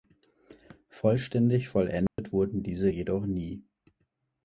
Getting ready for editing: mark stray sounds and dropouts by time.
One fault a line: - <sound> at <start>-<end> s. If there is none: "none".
- dropout at 2.1-2.2 s